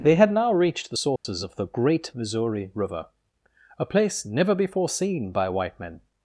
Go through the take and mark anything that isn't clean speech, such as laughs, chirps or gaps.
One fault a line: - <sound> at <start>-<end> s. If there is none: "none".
- dropout at 1.2-1.2 s